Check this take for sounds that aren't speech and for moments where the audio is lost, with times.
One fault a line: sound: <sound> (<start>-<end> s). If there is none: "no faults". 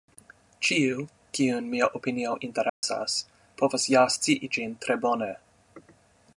sound: dropout (2.7-2.8 s)